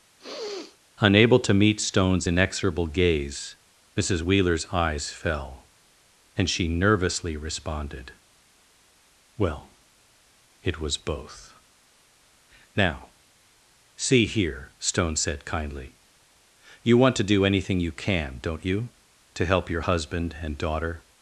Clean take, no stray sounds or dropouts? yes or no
no